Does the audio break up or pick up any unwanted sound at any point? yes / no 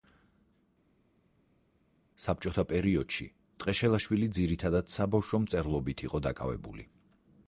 no